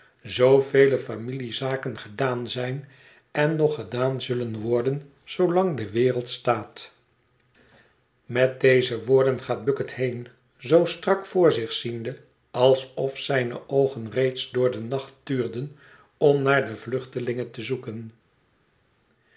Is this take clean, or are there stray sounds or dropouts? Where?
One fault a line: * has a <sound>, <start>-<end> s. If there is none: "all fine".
all fine